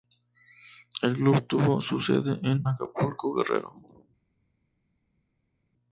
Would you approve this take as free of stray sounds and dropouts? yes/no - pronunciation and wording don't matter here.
yes